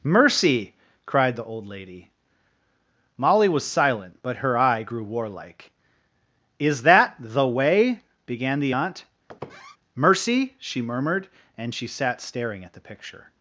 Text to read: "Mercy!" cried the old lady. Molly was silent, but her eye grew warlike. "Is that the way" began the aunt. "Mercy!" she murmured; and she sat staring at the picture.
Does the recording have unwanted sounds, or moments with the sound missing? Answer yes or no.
yes